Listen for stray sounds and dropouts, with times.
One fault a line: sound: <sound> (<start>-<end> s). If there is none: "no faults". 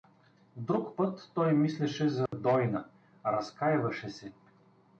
sound: dropout (2.3-2.3 s)